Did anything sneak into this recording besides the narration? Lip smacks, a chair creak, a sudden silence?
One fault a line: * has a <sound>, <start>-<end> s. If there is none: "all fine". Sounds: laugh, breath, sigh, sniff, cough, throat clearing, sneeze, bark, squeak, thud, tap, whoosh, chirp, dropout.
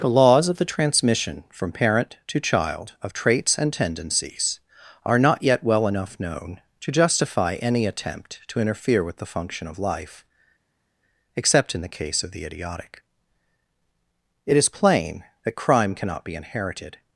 all fine